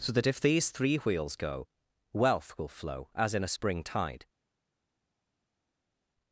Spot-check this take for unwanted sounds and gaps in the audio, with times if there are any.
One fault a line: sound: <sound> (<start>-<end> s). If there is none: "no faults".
no faults